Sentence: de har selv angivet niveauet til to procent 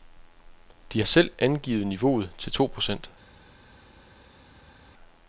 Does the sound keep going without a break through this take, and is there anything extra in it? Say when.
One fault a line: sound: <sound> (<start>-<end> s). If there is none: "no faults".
no faults